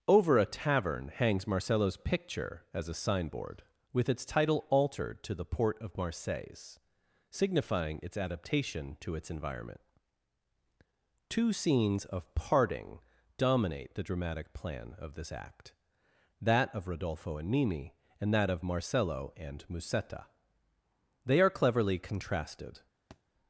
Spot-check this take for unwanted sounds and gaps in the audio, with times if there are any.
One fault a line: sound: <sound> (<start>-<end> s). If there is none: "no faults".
sound: thud (23.1-23.2 s)